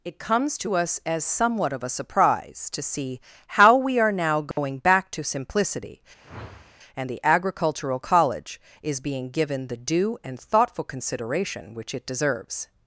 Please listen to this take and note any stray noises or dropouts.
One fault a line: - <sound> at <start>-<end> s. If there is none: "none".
- dropout at 4.5-4.6 s
- whoosh at 6.2-6.8 s